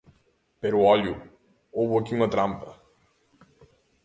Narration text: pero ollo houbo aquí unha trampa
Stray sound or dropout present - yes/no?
no